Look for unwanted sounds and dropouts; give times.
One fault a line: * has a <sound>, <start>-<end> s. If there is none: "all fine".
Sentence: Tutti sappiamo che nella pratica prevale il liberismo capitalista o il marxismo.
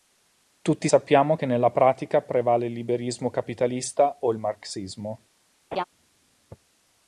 * has a laugh, 5.7-5.8 s